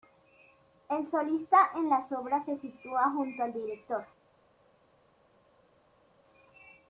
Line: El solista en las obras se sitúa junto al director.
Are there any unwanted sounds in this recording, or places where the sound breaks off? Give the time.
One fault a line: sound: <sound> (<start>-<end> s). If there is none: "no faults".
no faults